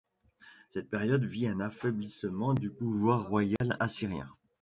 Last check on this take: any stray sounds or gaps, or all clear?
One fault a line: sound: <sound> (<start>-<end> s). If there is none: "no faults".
sound: dropout (3.6-3.6 s)